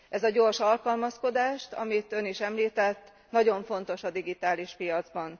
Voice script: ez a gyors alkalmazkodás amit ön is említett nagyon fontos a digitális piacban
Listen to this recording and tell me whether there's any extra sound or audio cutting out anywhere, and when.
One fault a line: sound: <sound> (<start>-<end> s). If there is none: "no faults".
no faults